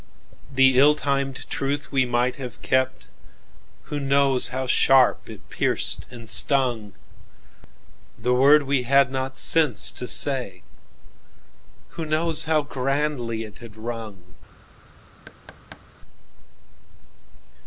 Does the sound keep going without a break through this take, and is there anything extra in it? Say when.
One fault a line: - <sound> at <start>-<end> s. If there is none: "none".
- thud at 15.3-15.9 s